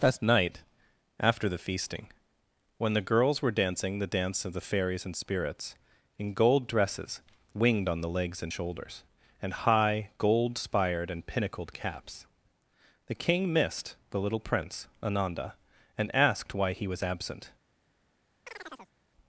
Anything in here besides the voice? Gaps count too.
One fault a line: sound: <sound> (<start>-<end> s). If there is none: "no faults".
sound: chirp (18.5-18.9 s)